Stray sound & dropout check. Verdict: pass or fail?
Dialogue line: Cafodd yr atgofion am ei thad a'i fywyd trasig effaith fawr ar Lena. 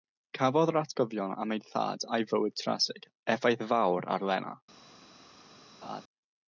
fail